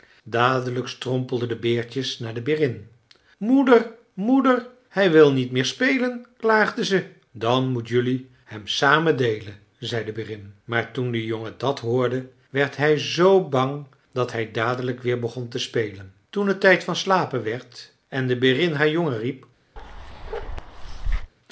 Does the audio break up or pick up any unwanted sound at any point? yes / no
yes